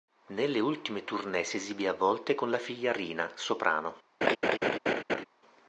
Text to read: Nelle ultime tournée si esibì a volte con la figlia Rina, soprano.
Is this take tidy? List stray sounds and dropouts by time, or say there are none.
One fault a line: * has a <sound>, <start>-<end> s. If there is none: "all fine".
* has a laugh, 4.2-5.2 s